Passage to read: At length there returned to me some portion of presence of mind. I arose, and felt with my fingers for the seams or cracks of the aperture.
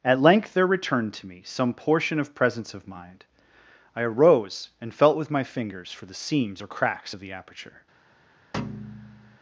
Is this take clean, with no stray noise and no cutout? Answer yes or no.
no